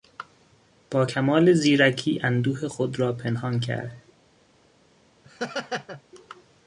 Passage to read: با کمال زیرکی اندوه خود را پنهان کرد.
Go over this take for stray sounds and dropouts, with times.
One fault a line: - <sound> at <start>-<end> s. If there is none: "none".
- laugh at 5.2-6.0 s